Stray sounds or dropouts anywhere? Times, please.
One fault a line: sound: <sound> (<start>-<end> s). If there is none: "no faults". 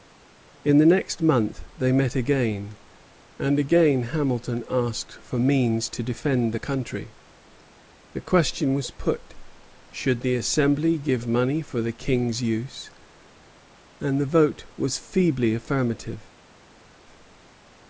no faults